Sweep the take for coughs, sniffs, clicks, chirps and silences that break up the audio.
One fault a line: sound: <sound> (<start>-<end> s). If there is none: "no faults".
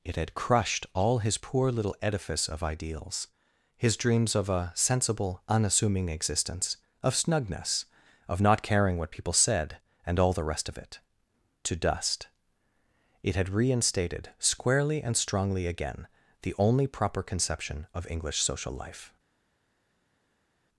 no faults